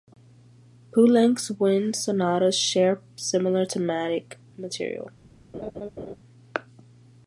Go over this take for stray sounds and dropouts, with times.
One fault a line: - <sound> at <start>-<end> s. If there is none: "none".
- laugh at 5.5-6.2 s